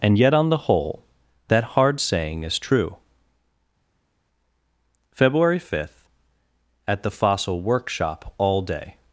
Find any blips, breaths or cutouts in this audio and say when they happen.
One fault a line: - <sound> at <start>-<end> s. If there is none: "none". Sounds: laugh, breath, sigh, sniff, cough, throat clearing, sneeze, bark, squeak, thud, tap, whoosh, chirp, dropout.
none